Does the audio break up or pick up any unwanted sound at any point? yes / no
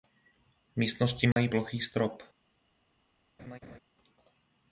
yes